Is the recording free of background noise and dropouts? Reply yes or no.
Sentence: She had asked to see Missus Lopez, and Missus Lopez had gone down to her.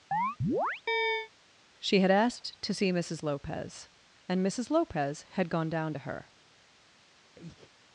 no